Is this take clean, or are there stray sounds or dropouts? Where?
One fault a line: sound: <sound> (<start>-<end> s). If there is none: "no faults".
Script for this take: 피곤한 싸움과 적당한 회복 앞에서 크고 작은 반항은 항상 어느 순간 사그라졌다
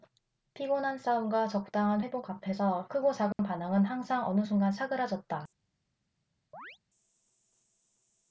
sound: dropout (3.3-3.4 s)
sound: chirp (6.5-6.8 s)